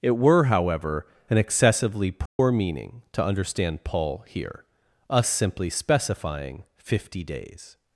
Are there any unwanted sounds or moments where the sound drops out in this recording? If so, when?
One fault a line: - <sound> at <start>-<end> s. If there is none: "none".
- dropout at 2.3-2.4 s